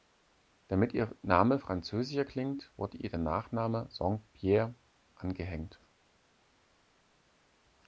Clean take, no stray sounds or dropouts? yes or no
yes